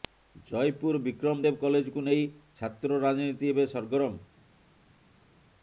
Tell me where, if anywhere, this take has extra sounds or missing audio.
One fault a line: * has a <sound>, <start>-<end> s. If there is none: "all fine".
all fine